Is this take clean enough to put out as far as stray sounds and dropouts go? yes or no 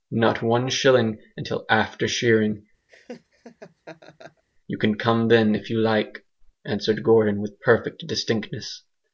no